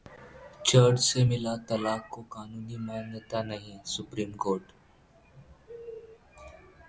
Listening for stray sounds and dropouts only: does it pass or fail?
pass